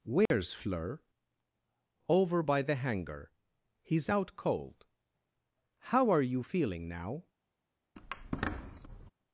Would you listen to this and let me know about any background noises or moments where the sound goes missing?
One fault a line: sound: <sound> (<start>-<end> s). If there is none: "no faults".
sound: dropout (0.3-0.3 s)
sound: squeak (8.0-9.1 s)